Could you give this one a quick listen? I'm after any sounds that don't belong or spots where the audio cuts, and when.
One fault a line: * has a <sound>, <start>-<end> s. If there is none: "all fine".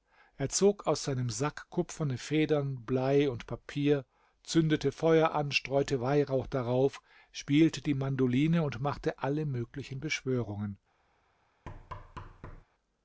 * has a thud, 11.7-12.6 s